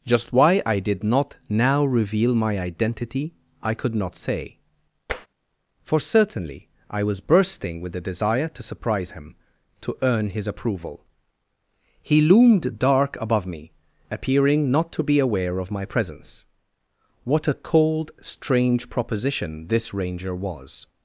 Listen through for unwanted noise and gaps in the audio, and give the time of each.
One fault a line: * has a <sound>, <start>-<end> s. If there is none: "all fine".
* has a tap, 5.1-5.3 s